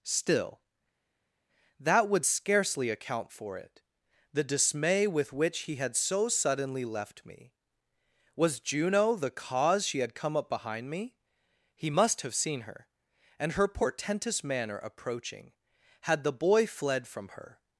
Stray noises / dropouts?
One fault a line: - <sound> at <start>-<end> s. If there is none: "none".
none